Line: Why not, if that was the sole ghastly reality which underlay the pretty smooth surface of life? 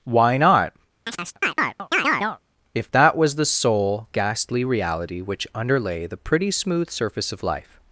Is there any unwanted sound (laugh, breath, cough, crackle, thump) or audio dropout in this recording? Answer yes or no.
yes